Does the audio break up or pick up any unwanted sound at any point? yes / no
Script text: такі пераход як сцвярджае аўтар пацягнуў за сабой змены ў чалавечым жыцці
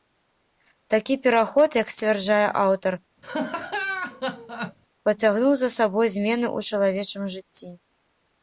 yes